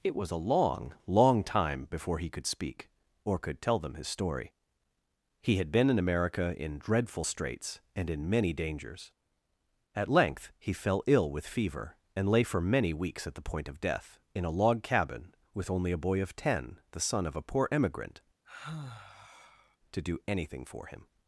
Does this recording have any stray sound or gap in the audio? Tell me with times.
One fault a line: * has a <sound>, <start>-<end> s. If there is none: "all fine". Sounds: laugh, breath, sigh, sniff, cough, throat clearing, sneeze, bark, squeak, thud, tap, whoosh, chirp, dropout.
* has a sigh, 18.4-19.8 s